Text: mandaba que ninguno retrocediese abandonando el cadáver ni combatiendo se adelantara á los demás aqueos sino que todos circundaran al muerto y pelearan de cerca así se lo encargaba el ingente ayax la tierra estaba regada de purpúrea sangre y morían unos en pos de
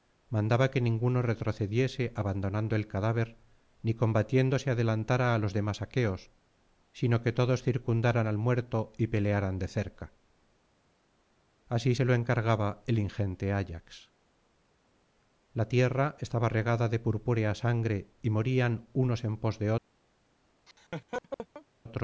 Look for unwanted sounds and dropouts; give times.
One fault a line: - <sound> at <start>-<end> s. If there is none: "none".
- laugh at 20.7-21.7 s